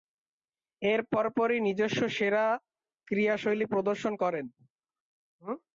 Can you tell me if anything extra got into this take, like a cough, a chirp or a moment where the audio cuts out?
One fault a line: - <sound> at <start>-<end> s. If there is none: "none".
none